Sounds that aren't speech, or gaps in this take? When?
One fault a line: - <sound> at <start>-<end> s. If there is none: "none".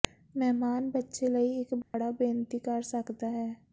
- dropout at 1.8-1.9 s